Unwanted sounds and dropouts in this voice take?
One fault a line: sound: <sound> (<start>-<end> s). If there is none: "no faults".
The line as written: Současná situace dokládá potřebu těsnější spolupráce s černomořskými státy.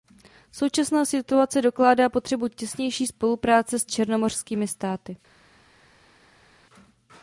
no faults